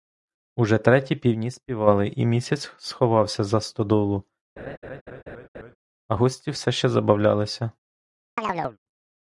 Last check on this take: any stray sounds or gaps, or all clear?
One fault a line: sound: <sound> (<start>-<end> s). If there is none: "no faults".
sound: laugh (4.6-5.8 s)
sound: chirp (8.4-8.8 s)